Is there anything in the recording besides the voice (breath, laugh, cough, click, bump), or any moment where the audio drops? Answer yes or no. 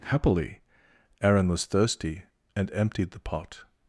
no